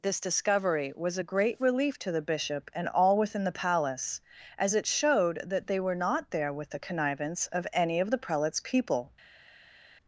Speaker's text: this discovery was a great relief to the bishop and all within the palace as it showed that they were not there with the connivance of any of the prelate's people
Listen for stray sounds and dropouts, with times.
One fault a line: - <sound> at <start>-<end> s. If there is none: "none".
none